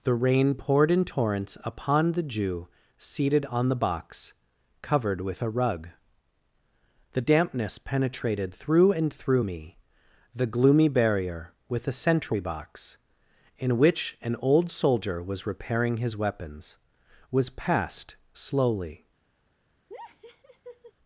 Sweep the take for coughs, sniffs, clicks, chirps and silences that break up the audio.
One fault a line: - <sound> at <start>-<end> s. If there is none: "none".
- laugh at 19.9-20.9 s